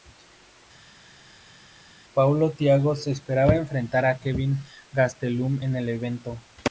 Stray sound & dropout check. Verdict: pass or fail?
pass